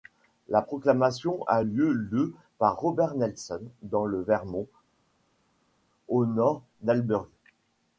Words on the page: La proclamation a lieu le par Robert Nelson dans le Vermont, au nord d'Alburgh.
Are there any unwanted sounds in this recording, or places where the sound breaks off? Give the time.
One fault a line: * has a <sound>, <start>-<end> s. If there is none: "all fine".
all fine